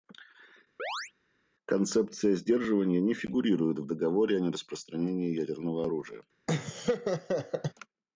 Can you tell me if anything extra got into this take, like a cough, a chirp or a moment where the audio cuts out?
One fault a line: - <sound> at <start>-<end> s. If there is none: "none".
- chirp at 0.8-1.1 s
- laugh at 6.5-7.7 s